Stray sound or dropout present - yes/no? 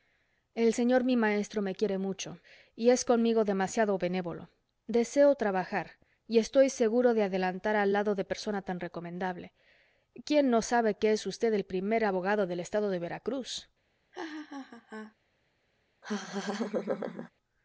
yes